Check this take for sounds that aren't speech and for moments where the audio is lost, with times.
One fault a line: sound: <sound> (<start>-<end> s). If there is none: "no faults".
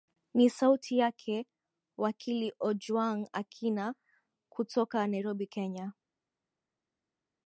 no faults